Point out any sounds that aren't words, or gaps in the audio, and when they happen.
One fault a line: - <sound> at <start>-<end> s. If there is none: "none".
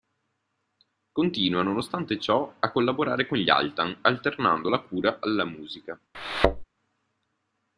- thud at 6.1-6.6 s